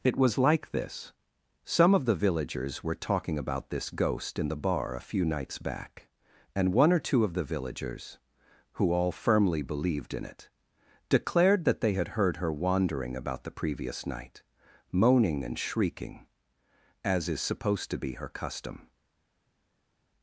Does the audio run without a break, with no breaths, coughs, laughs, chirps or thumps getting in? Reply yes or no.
yes